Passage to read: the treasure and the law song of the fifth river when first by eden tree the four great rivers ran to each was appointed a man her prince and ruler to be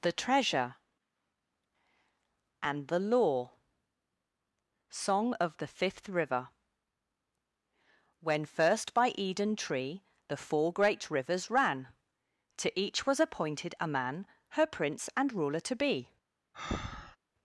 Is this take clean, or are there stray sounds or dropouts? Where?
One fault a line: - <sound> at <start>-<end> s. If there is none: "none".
- breath at 16.5-17.2 s